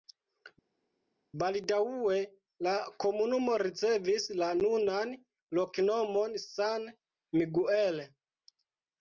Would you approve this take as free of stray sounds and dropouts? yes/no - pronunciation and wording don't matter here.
yes